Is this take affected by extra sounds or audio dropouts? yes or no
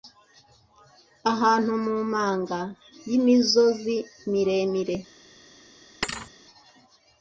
yes